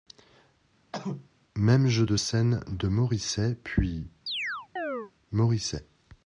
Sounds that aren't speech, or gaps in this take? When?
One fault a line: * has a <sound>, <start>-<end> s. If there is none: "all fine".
* has a cough, 0.9-1.3 s
* has a chirp, 4.3-5.1 s